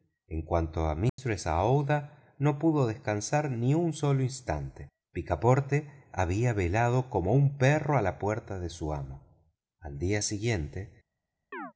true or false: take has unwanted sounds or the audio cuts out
true